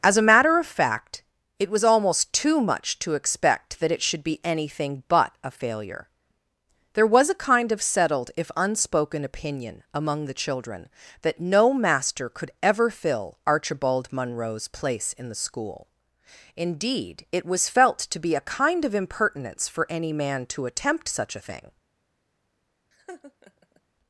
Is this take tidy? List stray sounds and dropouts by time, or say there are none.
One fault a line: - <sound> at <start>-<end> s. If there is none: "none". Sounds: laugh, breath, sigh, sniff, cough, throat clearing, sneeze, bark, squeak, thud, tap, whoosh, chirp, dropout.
- laugh at 22.9-23.8 s